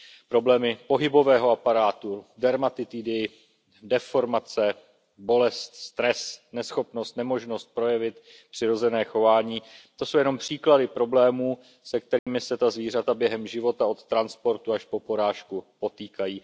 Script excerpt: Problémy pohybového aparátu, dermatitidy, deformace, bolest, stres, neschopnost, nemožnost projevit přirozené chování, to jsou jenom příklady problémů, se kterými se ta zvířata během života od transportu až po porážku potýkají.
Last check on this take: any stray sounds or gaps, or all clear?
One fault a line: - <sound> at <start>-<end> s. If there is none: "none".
- dropout at 12.2-12.3 s